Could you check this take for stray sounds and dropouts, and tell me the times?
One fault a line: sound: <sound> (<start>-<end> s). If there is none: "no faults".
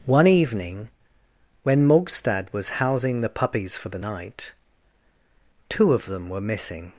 no faults